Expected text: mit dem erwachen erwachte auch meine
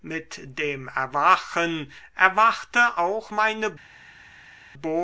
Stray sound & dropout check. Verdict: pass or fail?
pass